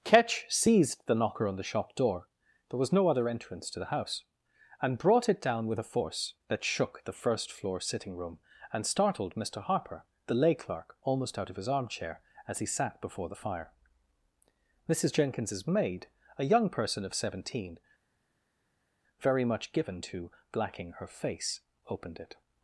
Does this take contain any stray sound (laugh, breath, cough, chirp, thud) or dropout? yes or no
no